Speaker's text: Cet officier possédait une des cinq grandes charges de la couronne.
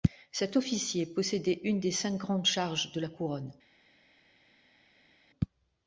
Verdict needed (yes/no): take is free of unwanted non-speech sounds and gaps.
yes